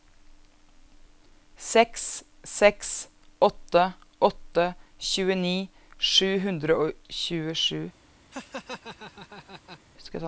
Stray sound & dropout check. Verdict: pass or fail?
fail